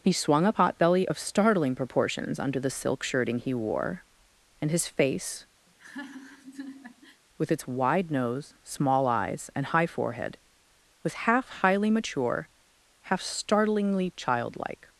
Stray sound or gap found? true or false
true